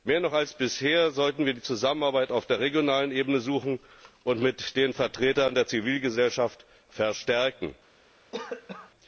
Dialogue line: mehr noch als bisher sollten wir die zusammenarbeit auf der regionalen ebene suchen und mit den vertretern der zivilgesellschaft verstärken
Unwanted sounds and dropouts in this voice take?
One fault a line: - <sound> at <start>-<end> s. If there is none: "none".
- cough at 8.3-8.9 s